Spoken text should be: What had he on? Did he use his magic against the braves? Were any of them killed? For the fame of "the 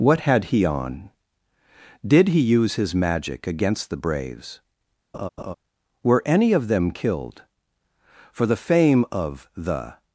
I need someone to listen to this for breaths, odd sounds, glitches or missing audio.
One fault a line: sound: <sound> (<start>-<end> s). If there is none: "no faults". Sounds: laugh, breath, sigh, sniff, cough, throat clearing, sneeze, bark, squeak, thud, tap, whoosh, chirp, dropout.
sound: laugh (5.1-5.5 s)